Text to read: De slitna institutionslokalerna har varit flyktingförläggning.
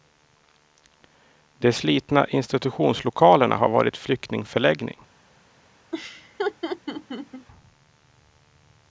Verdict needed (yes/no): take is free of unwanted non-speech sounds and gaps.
no